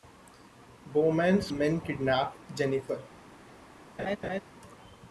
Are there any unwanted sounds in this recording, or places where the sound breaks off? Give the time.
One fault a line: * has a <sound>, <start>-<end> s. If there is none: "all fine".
* has a laugh, 4.0-4.4 s